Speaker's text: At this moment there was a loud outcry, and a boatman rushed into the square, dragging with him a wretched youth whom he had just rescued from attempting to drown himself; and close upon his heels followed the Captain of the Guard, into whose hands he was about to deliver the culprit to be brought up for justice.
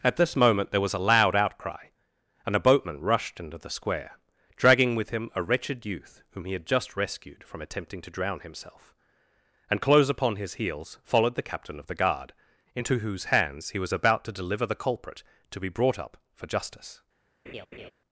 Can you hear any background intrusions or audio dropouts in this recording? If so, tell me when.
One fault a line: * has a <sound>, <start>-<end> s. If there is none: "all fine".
* has a laugh, 17.5-17.9 s